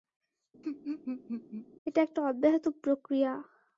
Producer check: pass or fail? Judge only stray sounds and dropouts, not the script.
fail